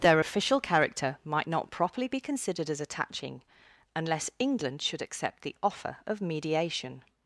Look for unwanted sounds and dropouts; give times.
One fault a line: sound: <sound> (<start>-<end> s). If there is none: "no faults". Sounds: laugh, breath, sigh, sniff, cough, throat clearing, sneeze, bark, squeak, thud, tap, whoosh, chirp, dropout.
no faults